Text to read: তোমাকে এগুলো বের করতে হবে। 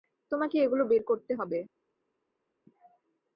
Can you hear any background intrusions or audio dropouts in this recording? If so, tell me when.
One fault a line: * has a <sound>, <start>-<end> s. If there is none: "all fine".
all fine